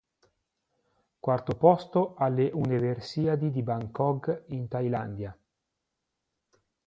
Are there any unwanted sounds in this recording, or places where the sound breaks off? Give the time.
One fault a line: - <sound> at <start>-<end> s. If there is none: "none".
none